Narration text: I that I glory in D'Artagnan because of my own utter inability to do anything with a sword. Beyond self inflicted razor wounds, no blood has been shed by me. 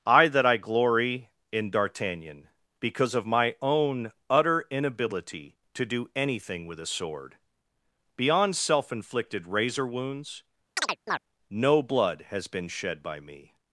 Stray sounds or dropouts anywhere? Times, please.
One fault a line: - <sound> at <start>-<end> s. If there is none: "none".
- chirp at 10.8-11.2 s